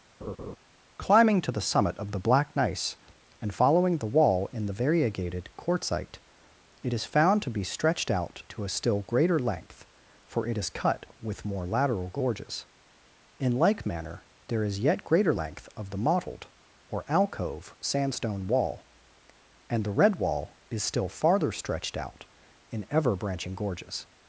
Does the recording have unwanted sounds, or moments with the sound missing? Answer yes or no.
yes